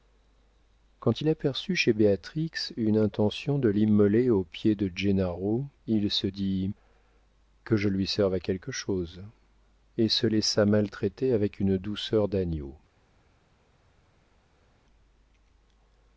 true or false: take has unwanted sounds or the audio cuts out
false